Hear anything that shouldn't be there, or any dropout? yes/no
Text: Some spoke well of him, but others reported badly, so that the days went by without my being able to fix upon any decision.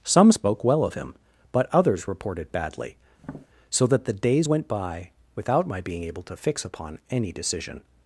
yes